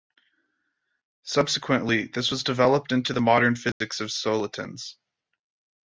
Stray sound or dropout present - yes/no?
yes